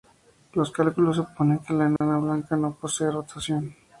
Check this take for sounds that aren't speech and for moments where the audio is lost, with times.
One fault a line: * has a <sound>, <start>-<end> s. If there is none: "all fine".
* has a dropout, 2.0-2.0 s